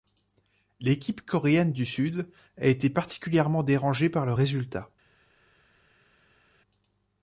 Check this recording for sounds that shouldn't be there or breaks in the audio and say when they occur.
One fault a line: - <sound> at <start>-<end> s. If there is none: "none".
none